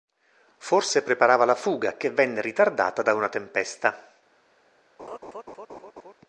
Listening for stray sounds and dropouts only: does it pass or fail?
fail